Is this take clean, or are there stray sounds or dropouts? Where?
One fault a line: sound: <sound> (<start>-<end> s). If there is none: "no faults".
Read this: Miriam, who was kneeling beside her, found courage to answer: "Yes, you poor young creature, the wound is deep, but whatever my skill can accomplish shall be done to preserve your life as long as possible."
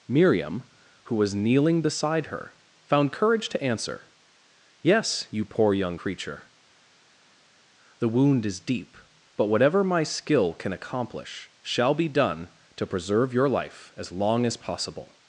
no faults